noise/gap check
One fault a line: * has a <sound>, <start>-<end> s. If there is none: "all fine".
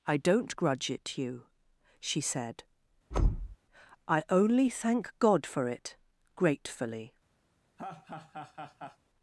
* has a thud, 3.1-3.6 s
* has a laugh, 7.8-9.0 s